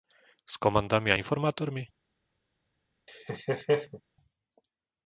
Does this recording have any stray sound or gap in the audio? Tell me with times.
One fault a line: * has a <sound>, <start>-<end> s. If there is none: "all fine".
* has a laugh, 3.1-4.0 s